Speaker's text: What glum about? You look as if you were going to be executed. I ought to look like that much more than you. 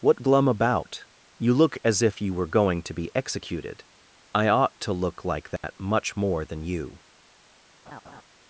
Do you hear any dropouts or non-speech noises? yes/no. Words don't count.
yes